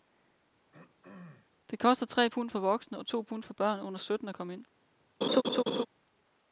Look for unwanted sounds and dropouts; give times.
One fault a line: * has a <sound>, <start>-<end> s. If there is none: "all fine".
* has a throat clearing, 0.7-1.5 s
* has a laugh, 5.2-5.9 s